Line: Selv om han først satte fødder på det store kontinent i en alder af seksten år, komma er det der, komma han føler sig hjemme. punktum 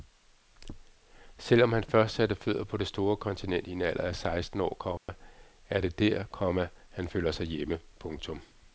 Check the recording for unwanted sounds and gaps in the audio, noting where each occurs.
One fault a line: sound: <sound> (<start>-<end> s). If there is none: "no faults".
sound: dropout (5.0-5.1 s)